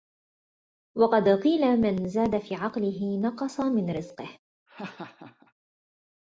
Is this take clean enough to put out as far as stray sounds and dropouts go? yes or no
no